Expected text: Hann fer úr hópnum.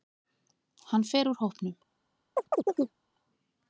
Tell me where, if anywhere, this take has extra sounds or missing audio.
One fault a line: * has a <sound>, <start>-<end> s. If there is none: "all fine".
* has a chirp, 2.4-3.0 s